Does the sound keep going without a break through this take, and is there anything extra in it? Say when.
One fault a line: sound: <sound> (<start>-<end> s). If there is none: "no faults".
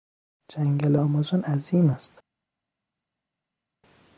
no faults